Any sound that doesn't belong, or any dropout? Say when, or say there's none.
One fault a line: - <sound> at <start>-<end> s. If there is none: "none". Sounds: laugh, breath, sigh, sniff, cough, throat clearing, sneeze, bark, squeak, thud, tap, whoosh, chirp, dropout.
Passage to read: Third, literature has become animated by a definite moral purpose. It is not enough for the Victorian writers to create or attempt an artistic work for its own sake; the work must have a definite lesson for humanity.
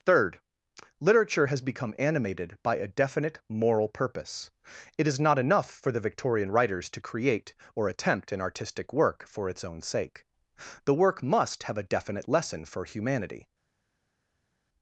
none